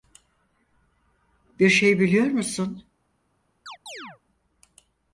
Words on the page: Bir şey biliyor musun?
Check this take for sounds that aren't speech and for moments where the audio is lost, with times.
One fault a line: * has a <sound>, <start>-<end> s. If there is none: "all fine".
* has a chirp, 3.7-4.2 s